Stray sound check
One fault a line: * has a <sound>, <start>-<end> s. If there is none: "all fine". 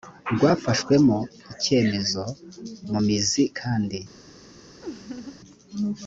* has a laugh, 4.8-5.4 s